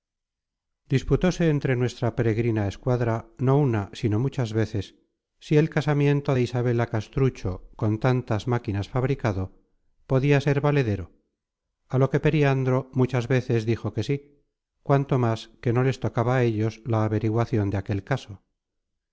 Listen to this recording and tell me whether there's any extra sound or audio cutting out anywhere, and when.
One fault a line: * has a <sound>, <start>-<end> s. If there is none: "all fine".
all fine